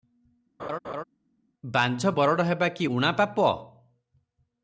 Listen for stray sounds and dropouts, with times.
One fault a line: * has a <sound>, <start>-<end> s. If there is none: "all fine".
* has a laugh, 0.6-1.0 s